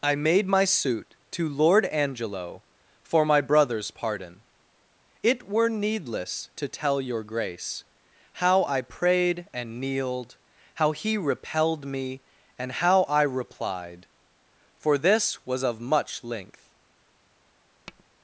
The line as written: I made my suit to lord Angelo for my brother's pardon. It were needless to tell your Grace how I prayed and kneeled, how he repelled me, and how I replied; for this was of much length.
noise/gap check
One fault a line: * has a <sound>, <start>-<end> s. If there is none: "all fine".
* has a tap, 17.9-18.1 s